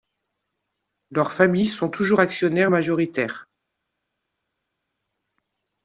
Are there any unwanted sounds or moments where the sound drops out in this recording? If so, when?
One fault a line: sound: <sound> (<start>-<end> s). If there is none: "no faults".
no faults